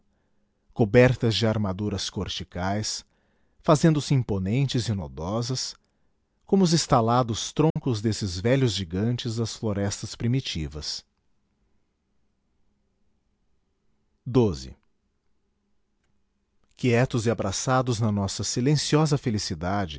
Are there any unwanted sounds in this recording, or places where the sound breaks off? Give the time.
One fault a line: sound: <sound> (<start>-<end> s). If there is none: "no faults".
sound: dropout (7.7-7.8 s)